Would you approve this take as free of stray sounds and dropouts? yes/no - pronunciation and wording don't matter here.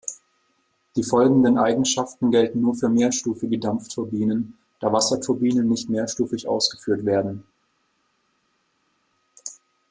yes